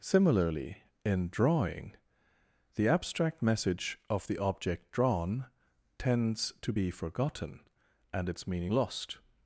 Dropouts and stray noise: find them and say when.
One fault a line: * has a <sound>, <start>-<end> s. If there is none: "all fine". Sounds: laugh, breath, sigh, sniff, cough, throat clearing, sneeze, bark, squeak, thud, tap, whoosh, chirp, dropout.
all fine